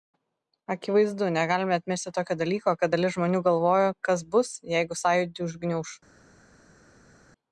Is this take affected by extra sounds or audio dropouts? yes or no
no